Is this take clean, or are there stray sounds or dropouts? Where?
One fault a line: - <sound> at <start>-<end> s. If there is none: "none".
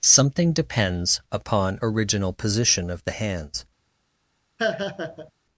- laugh at 4.6-5.3 s